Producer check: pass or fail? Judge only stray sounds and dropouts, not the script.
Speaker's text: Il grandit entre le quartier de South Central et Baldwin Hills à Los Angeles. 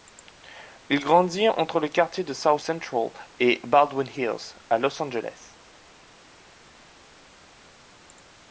pass